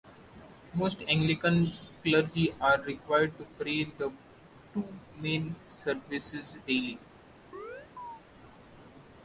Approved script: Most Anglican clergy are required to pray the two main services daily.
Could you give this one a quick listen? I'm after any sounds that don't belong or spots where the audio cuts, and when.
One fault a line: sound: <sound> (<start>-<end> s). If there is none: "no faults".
sound: chirp (7.5-8.2 s)